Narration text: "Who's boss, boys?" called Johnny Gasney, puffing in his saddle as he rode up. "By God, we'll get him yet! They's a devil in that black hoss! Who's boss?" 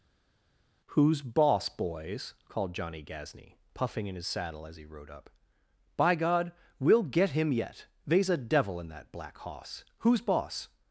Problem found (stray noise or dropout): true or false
false